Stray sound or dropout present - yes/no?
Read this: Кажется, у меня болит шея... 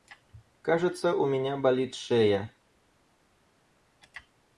no